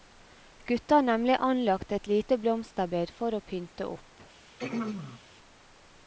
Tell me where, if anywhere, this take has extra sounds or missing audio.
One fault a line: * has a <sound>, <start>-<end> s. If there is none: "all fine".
* has a throat clearing, 4.6-5.2 s